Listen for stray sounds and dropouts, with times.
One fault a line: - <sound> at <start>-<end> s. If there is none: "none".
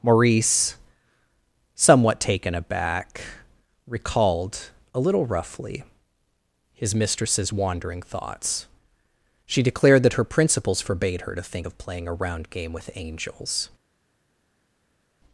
none